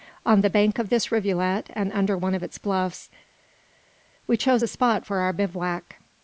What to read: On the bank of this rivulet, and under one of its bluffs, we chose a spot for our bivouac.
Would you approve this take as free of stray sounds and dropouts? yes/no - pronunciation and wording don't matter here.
yes